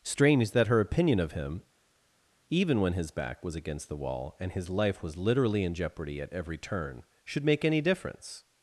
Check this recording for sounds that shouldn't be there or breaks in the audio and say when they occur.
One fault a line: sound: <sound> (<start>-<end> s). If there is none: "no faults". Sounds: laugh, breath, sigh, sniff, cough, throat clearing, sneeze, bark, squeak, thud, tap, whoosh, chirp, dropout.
no faults